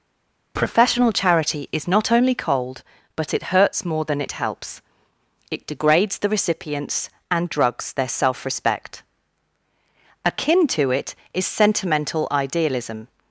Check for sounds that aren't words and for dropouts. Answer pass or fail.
pass